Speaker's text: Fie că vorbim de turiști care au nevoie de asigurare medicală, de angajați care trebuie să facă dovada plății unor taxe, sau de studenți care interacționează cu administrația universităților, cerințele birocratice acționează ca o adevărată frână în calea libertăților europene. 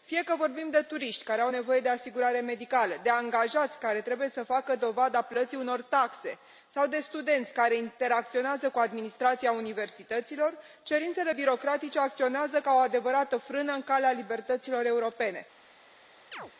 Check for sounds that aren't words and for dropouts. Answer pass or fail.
fail